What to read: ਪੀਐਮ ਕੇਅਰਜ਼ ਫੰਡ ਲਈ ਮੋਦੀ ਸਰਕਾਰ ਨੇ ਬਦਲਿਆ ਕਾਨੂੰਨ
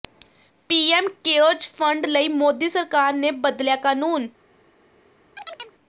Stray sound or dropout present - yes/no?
yes